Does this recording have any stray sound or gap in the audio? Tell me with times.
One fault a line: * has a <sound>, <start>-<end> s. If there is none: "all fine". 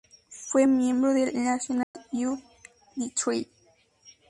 * has a dropout, 1.8-1.9 s